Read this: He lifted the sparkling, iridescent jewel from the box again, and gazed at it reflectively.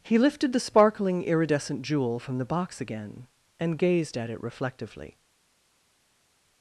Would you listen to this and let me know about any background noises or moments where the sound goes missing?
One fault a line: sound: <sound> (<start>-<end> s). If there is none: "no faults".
no faults